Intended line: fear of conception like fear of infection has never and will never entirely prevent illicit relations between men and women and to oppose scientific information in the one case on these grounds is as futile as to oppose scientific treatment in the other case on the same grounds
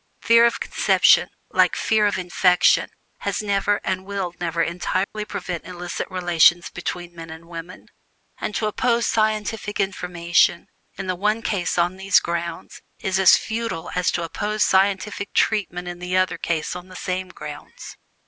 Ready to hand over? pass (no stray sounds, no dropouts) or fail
fail